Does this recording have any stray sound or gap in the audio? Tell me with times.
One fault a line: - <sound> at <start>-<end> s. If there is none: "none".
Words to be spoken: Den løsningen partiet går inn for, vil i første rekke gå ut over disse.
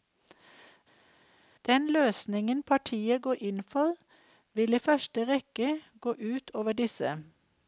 none